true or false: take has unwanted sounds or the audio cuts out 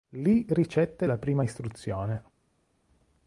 false